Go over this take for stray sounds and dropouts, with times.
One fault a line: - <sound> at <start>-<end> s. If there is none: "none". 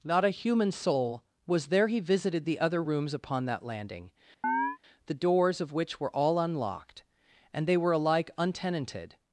- chirp at 4.4-4.8 s